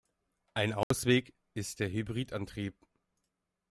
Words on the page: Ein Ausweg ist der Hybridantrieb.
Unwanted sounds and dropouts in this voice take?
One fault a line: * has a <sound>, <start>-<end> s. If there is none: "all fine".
* has a dropout, 0.8-0.9 s